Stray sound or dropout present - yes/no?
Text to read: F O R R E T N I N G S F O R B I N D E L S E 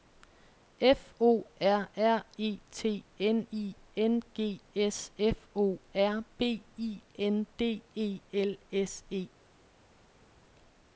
no